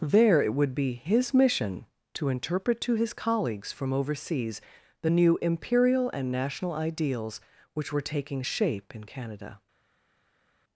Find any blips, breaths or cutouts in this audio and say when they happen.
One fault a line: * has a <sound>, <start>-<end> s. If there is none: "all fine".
all fine